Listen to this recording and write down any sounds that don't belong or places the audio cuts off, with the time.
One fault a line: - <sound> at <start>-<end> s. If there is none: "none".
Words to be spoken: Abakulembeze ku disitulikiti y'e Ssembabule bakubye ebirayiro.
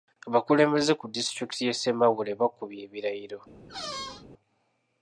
- squeak at 3.7-4.3 s